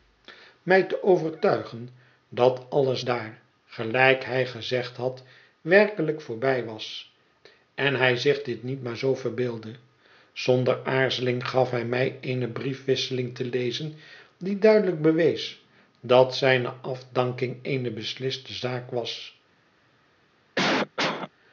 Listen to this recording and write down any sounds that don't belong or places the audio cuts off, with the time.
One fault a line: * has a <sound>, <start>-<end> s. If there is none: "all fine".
* has a cough, 20.6-21.3 s